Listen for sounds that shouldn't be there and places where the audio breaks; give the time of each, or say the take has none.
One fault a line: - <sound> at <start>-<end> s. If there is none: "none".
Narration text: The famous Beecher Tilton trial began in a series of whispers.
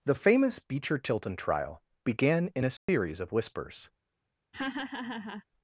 - dropout at 2.8-2.9 s
- laugh at 4.5-5.4 s